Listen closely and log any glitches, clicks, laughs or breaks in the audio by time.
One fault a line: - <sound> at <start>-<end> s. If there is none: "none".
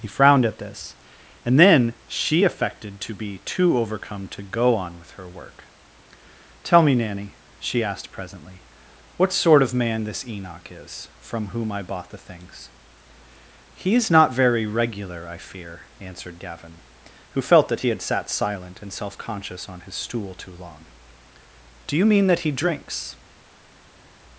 none